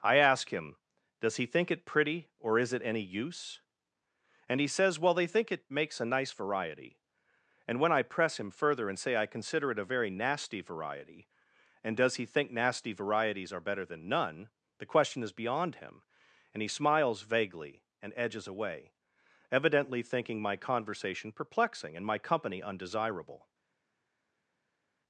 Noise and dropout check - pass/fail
pass